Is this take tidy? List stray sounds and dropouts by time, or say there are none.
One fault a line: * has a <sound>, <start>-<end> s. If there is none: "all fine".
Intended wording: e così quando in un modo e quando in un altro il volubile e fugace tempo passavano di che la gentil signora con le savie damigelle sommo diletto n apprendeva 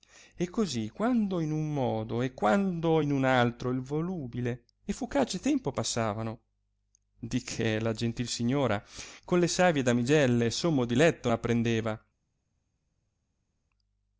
all fine